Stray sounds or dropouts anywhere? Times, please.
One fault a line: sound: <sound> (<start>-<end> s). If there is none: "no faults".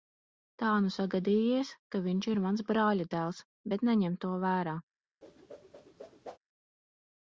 sound: whoosh (5.2-6.4 s)